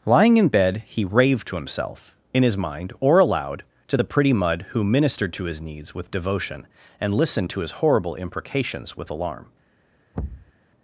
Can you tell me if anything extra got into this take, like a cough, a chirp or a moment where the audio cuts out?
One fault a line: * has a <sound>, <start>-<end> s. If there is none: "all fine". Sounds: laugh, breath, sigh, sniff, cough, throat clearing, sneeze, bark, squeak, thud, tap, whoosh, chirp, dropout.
* has a thud, 10.1-10.5 s